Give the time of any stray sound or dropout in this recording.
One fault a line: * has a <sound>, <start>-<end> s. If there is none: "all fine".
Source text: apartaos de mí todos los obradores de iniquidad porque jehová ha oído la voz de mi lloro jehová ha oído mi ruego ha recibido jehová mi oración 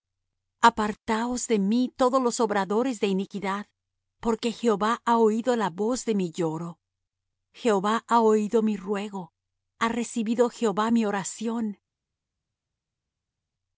all fine